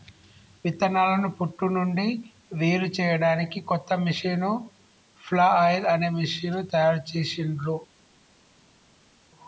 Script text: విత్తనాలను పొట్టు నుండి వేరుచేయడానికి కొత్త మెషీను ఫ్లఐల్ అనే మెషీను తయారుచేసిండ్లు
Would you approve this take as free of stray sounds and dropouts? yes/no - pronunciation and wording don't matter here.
yes